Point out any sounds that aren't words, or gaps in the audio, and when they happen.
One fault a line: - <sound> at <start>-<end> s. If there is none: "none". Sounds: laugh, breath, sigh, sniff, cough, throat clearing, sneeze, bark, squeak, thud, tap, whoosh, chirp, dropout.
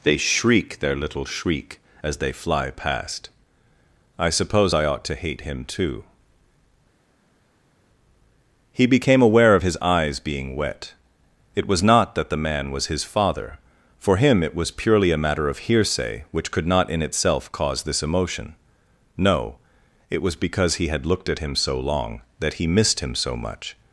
none